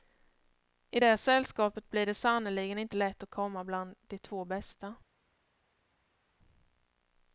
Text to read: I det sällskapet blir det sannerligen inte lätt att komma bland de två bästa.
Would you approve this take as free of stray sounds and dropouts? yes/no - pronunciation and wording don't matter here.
yes